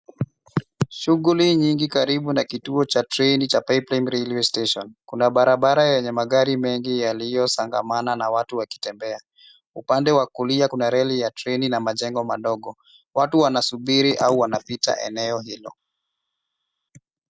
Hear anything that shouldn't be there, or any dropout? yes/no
no